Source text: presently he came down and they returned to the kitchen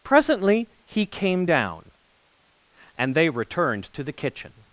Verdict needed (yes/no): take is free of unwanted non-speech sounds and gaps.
yes